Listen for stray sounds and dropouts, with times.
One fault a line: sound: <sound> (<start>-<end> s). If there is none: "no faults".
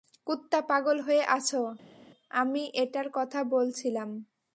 no faults